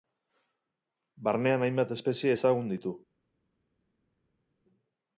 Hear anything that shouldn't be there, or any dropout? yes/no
no